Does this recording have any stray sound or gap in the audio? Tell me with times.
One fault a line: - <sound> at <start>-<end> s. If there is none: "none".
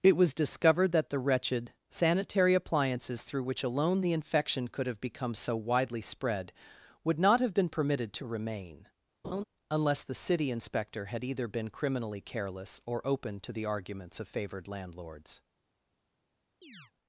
- laugh at 9.2-9.4 s
- chirp at 16.6-16.9 s